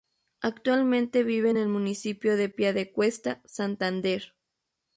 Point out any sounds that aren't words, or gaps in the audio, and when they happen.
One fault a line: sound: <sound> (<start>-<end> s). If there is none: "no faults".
no faults